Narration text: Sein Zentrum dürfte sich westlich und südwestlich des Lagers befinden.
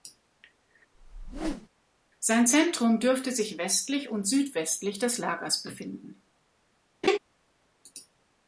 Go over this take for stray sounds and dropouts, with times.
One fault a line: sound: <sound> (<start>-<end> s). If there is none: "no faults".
sound: whoosh (0.9-1.7 s)
sound: laugh (7.0-7.2 s)